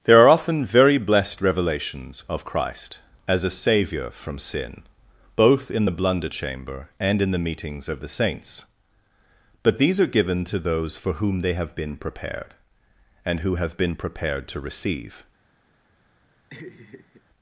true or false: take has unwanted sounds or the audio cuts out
true